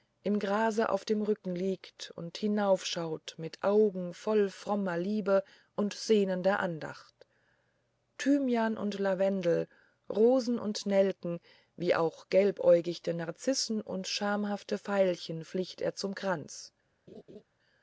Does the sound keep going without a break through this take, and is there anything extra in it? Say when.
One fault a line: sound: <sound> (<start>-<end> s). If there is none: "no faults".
sound: laugh (17.1-17.4 s)